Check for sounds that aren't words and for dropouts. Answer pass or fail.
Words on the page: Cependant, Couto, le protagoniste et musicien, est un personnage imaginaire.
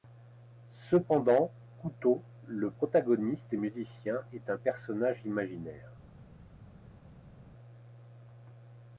pass